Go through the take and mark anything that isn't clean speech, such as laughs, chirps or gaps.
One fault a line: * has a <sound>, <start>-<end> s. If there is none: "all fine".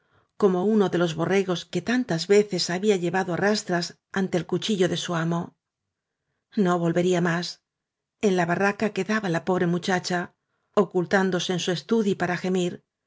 all fine